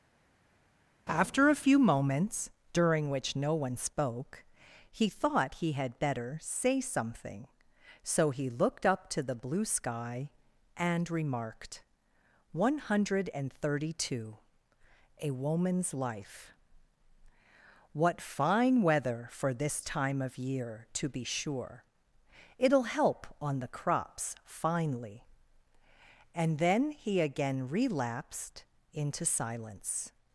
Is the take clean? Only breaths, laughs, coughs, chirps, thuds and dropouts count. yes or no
yes